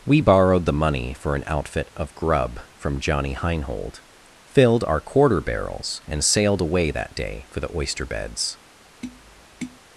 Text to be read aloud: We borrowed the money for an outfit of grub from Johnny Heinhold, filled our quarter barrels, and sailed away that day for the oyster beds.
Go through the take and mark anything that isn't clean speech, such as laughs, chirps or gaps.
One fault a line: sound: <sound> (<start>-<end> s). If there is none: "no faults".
sound: tap (9.0-9.8 s)